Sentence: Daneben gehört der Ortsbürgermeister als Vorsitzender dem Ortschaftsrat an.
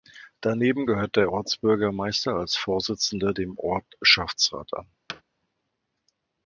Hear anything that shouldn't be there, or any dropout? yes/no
yes